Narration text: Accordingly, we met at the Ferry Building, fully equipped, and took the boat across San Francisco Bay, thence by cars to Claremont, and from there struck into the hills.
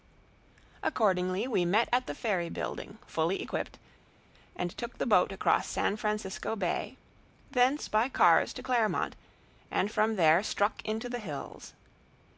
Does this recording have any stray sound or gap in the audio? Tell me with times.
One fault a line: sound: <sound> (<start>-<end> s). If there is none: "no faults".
no faults